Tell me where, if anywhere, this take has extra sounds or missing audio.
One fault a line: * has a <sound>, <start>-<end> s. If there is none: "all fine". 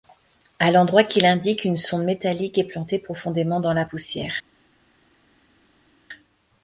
all fine